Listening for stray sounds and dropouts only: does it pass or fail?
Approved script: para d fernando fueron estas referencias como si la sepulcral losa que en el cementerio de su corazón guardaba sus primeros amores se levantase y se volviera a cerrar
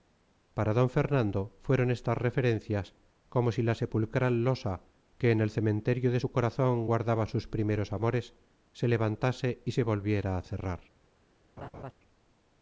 fail